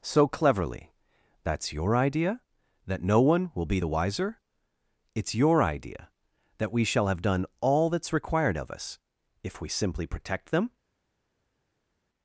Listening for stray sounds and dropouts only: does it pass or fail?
pass